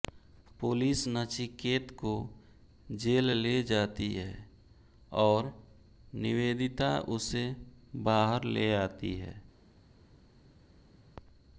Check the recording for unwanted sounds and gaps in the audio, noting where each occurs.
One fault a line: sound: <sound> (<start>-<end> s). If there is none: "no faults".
no faults